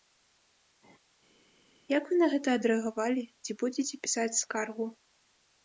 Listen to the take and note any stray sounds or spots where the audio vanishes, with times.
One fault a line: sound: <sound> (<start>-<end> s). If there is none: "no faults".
no faults